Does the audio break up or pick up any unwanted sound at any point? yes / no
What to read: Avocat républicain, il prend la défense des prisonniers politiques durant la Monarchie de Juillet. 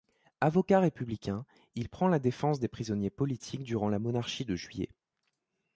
no